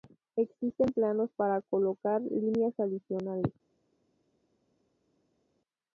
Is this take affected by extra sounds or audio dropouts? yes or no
no